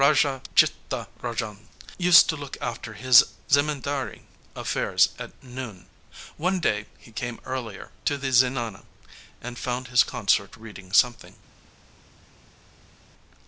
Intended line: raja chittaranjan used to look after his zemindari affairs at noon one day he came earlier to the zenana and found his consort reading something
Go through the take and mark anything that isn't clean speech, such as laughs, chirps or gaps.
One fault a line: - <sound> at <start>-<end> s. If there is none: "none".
none